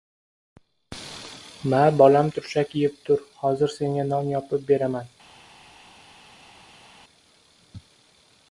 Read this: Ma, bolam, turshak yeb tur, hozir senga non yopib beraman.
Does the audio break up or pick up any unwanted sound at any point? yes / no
no